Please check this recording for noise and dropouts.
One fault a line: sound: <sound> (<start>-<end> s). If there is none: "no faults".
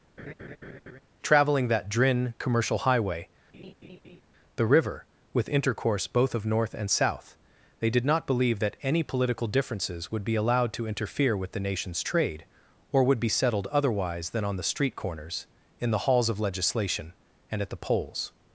sound: laugh (0.2-1.0 s)
sound: laugh (3.5-4.2 s)